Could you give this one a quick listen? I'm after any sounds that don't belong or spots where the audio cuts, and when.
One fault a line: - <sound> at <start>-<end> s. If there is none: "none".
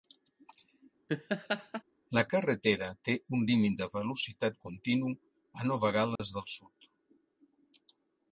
- laugh at 1.1-1.8 s
- dropout at 6.2-6.2 s